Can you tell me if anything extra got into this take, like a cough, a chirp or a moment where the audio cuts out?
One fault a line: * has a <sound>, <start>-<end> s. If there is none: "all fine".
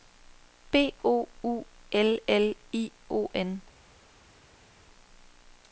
all fine